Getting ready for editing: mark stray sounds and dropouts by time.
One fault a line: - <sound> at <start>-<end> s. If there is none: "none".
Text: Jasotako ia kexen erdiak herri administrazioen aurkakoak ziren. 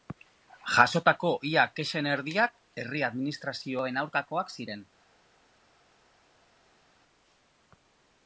none